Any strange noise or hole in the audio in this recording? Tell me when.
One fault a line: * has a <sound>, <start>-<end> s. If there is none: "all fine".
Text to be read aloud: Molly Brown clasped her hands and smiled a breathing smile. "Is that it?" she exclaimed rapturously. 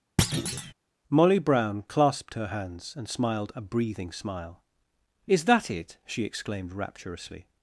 * has a thud, 0.2-0.7 s